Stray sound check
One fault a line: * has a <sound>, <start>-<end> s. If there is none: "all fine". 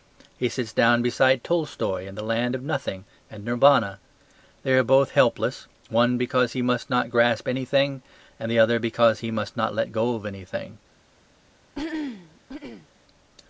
* has a throat clearing, 11.7-12.9 s